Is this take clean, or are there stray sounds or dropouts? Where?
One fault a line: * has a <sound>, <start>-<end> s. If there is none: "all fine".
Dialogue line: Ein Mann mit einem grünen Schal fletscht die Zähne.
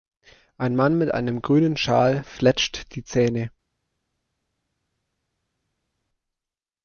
all fine